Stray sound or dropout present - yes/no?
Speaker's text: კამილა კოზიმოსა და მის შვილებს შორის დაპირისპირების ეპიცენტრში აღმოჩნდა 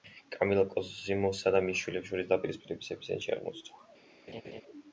yes